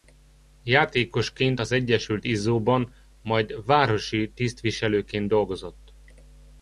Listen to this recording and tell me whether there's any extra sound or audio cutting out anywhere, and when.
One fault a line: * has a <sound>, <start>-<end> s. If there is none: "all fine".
all fine